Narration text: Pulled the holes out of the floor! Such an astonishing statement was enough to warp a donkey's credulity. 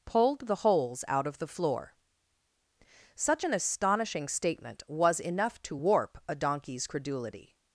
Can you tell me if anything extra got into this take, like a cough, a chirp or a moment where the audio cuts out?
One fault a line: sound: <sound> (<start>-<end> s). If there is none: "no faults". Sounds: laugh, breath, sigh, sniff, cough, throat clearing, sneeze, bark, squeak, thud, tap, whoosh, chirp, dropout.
no faults